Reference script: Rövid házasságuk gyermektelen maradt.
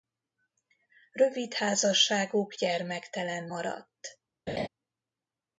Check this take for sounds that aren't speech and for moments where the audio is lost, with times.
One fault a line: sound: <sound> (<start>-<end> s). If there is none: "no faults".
sound: laugh (4.5-4.7 s)